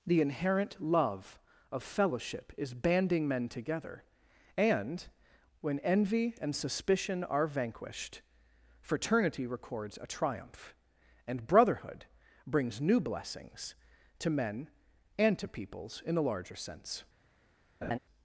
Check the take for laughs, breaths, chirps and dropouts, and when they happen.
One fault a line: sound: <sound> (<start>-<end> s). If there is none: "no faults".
sound: laugh (17.8-18.0 s)